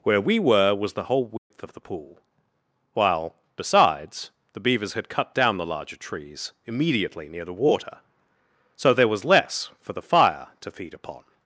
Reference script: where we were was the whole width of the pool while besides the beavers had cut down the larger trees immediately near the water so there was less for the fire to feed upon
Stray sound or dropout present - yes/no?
yes